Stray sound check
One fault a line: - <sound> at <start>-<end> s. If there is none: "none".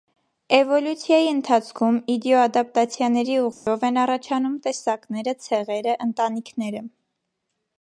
- dropout at 3.5-3.7 s